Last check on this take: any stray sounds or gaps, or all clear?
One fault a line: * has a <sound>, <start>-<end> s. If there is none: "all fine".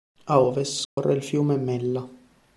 * has a dropout, 0.8-1.0 s